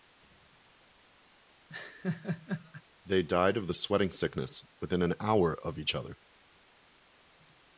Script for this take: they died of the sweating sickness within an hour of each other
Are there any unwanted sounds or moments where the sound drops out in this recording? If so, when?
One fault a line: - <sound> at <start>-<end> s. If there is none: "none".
- laugh at 1.7-2.8 s